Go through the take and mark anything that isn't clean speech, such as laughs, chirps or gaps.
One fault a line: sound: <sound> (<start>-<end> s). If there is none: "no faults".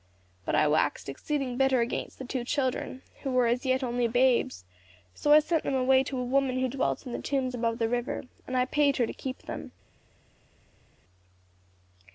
no faults